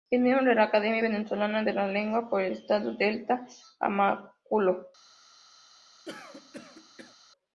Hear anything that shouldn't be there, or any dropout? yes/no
yes